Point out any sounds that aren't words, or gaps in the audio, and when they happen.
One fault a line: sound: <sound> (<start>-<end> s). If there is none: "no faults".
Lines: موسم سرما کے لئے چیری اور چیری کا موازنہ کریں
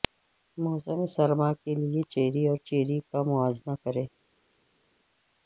no faults